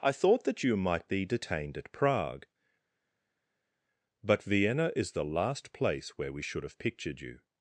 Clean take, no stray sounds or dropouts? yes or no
yes